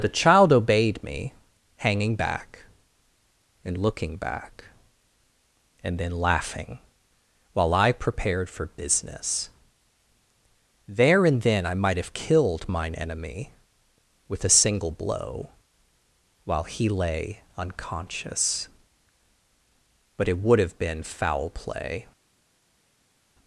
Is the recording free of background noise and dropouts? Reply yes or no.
yes